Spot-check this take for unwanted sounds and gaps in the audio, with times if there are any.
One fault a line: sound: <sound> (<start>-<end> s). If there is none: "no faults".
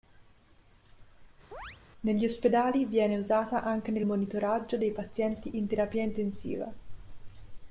sound: chirp (1.5-1.8 s)